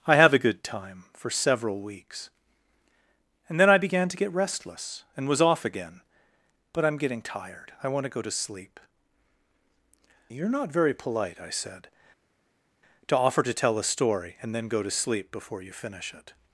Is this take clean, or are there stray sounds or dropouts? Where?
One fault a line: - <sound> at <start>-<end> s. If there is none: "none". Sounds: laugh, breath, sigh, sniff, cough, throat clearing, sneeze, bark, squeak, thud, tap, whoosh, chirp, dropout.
none